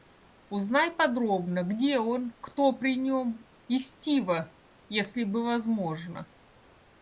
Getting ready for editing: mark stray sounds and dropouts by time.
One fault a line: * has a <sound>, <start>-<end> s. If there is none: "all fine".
all fine